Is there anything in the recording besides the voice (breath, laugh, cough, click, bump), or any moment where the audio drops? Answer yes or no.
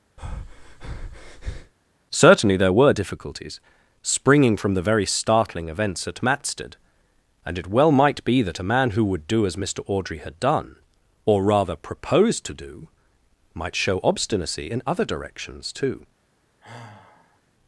yes